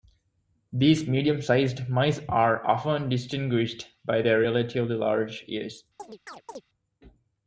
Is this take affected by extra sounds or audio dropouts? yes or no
yes